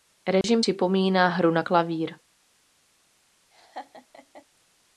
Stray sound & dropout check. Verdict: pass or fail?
fail